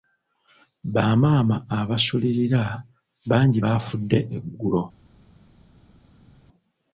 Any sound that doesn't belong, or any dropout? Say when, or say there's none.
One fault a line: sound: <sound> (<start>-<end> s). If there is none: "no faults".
no faults